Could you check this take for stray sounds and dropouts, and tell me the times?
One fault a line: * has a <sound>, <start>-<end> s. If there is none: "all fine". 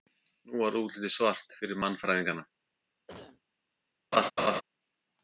* has a cough, 3.1-3.4 s
* has a laugh, 4.1-4.6 s